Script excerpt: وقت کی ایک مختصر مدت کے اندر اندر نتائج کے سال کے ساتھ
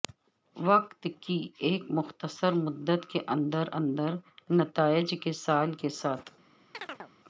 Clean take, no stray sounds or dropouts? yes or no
no